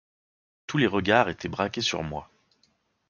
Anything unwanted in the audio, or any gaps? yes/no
no